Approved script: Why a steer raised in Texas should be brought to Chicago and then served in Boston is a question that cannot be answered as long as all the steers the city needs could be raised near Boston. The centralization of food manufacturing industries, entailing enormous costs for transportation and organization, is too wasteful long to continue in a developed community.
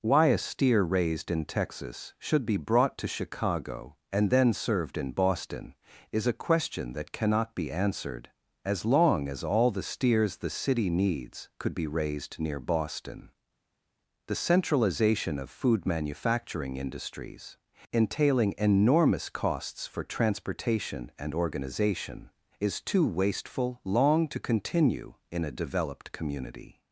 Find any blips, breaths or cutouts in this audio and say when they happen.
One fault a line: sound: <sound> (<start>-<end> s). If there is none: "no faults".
no faults